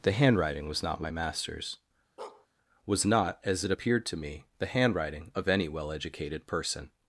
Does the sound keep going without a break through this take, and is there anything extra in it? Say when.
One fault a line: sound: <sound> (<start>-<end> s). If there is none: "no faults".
sound: bark (2.2-2.5 s)